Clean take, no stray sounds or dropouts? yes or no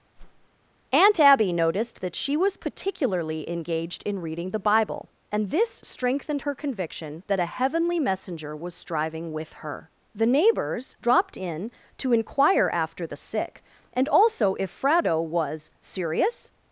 no